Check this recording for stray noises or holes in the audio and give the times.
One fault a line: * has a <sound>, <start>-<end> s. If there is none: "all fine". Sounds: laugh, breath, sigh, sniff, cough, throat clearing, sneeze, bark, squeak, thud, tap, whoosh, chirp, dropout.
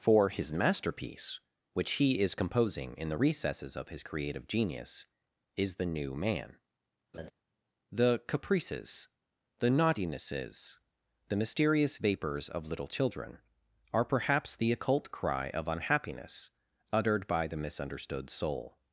* has a laugh, 7.1-7.3 s